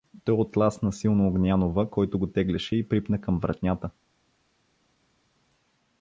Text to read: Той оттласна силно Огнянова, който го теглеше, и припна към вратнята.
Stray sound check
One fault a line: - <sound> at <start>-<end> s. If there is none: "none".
none